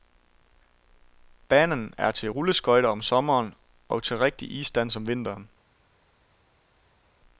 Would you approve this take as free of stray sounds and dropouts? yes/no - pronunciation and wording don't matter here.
yes